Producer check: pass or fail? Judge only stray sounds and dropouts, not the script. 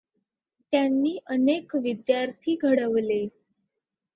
pass